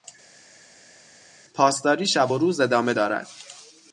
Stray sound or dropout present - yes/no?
no